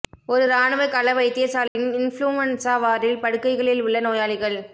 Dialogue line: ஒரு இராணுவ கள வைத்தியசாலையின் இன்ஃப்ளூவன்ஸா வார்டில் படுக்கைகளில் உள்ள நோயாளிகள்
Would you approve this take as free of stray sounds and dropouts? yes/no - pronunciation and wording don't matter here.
no